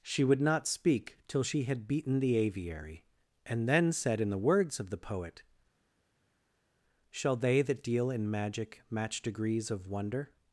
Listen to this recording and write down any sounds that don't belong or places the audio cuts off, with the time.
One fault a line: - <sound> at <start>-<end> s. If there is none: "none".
none